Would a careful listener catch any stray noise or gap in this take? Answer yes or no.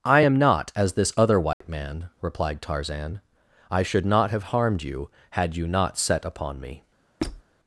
yes